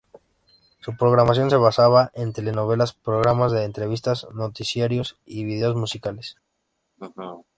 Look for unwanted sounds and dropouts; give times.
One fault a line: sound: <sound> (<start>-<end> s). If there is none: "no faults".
sound: laugh (7.0-7.5 s)